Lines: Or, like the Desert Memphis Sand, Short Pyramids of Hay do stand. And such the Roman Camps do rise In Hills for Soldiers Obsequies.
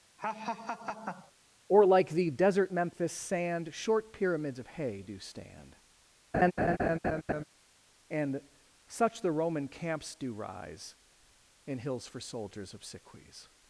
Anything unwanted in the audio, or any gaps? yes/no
yes